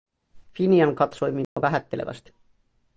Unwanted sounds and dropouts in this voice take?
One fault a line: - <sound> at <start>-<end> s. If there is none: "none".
- dropout at 1.4-1.6 s